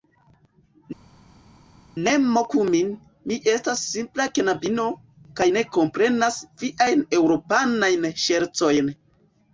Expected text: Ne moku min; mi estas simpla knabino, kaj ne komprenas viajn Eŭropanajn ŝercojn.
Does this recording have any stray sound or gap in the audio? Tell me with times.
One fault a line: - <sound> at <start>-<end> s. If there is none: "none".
none